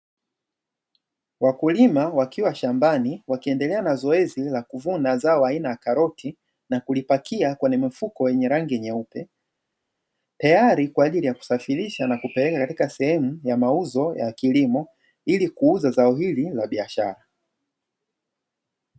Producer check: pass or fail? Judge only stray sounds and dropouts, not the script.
pass